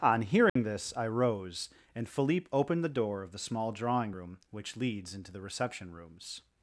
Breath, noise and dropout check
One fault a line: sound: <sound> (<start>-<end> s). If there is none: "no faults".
sound: dropout (0.5-0.6 s)